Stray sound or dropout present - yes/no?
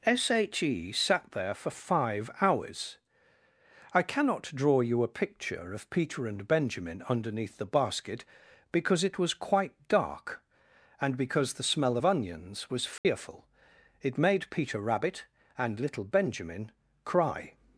yes